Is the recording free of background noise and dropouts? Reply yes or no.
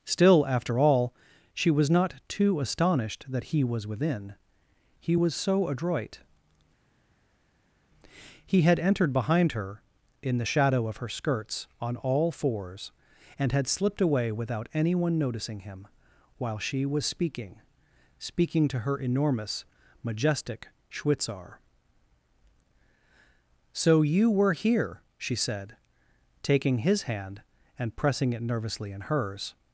yes